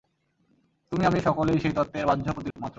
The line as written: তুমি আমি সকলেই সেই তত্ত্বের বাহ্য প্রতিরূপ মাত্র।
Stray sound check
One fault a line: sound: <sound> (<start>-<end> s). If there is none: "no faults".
sound: dropout (2.5-2.6 s)